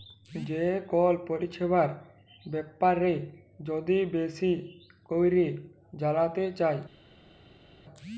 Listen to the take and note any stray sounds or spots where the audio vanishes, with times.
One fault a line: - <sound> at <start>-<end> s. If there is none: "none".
none